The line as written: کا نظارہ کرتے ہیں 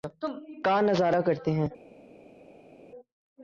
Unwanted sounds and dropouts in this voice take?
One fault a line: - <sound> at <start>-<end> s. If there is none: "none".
none